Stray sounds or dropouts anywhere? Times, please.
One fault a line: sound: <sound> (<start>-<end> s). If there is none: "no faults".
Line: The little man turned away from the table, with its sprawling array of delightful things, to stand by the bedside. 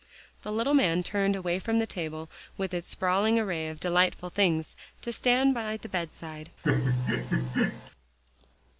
sound: laugh (6.6-7.9 s)